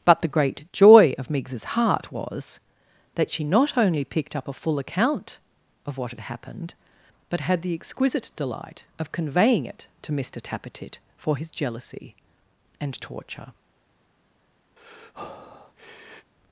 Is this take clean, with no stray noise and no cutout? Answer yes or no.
no